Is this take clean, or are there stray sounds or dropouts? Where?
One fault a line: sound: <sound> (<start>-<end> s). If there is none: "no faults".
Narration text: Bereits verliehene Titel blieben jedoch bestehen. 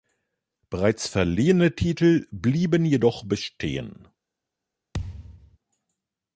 sound: thud (4.9-5.6 s)